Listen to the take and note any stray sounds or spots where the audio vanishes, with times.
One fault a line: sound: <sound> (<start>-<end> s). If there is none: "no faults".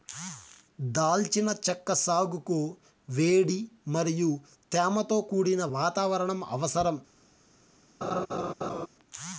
sound: laugh (8.0-8.9 s)